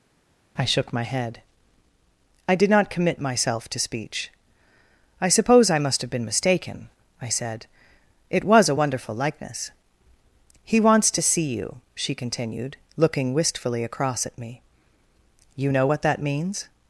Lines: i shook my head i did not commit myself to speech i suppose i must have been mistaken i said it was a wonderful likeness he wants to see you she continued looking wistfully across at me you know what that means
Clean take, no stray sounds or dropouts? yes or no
yes